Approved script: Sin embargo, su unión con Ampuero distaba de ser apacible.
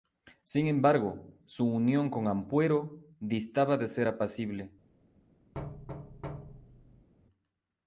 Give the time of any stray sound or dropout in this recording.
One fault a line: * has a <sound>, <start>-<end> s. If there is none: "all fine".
* has a thud, 5.5-7.1 s